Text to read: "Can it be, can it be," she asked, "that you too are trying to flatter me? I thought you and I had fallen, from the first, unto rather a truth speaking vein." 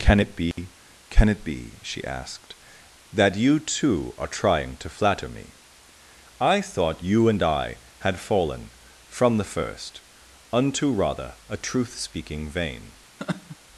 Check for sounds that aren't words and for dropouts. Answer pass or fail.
fail